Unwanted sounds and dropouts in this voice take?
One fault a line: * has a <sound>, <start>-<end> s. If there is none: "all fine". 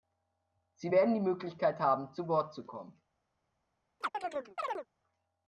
* has a chirp, 4.0-4.9 s